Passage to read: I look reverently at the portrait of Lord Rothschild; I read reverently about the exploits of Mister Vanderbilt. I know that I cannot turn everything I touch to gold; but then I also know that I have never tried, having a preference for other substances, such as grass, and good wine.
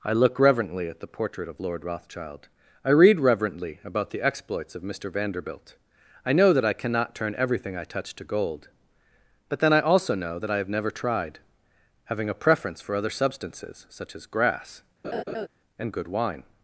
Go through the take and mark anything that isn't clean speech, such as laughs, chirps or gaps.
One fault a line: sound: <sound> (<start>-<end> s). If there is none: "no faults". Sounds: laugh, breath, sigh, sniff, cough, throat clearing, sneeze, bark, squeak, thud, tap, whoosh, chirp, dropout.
sound: laugh (15.0-15.5 s)